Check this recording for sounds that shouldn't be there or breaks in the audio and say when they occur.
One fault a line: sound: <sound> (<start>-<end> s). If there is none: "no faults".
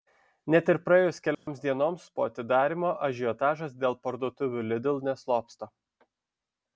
sound: dropout (1.3-1.5 s)